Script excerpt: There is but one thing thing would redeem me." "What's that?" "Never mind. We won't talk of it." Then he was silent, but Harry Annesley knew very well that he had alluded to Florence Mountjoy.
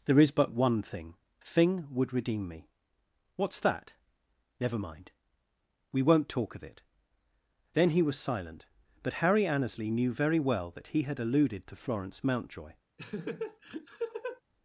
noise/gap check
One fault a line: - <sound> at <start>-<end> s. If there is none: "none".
- laugh at 13.0-14.4 s